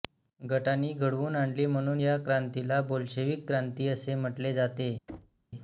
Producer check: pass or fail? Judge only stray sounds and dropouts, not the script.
fail